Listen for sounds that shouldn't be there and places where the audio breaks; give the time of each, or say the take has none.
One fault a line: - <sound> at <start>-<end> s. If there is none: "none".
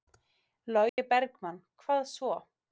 - dropout at 0.9-1.0 s